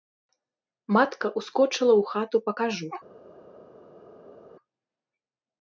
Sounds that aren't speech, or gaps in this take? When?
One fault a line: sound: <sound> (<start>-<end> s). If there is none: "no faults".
no faults